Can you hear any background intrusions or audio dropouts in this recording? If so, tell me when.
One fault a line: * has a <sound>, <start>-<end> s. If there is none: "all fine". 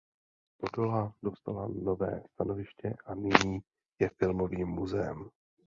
all fine